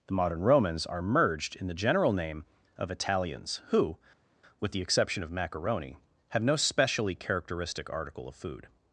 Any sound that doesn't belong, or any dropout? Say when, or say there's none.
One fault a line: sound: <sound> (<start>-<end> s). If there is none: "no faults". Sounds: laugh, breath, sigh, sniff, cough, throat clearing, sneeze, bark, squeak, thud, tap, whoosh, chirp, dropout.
no faults